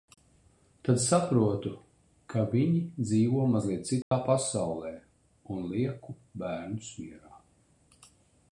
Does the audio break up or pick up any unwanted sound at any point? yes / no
yes